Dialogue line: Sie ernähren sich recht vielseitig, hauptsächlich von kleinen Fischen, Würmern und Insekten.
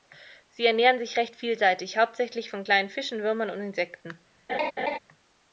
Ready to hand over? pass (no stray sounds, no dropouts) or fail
fail